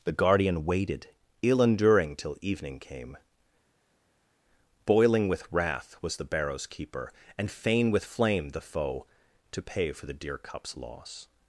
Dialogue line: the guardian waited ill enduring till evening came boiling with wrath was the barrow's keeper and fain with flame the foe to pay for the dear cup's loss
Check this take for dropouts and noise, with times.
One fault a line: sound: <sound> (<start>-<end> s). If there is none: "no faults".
no faults